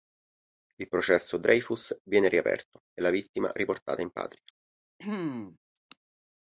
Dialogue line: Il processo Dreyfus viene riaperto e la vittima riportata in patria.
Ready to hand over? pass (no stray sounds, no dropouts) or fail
fail